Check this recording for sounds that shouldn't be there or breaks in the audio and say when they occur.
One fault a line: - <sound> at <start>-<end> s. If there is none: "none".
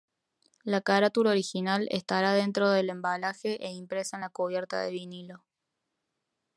none